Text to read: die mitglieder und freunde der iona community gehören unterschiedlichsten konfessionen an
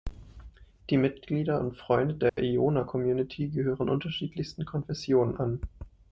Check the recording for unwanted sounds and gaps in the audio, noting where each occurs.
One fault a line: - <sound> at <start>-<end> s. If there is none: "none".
- dropout at 2.3-2.4 s